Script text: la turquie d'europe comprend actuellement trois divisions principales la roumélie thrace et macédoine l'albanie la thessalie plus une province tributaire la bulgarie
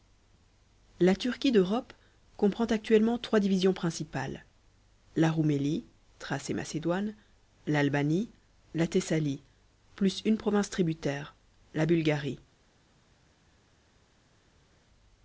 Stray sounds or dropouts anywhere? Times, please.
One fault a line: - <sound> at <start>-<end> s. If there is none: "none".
none